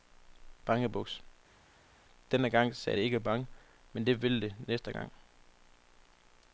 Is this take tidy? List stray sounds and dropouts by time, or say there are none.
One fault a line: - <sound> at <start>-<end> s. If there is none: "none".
none